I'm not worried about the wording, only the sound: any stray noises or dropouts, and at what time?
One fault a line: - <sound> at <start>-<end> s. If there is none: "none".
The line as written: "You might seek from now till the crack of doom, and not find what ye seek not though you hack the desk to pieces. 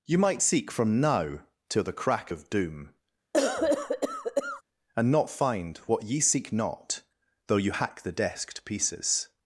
- cough at 3.3-4.6 s